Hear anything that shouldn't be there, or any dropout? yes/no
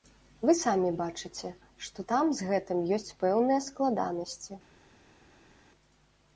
no